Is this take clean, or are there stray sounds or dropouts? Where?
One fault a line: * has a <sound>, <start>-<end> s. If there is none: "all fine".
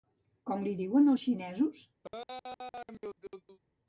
* has a laugh, 2.0-3.6 s